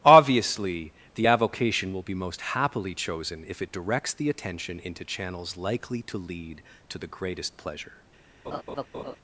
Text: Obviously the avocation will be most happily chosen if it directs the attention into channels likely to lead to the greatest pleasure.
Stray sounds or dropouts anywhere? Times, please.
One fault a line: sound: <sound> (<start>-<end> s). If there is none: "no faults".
sound: laugh (8.4-9.2 s)